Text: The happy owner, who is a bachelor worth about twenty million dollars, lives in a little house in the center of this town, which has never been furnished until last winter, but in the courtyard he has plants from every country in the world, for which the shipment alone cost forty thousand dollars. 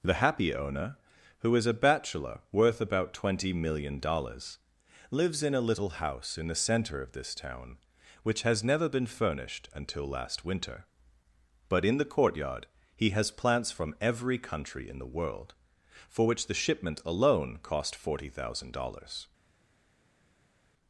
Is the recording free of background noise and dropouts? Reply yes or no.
yes